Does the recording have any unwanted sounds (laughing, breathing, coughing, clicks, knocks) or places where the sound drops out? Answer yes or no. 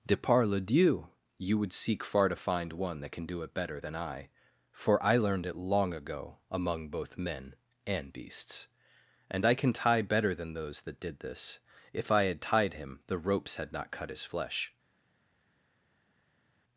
no